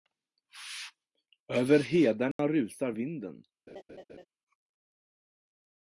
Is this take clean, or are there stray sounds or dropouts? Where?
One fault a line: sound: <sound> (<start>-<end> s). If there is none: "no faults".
sound: dropout (2.3-2.4 s)
sound: laugh (3.7-4.3 s)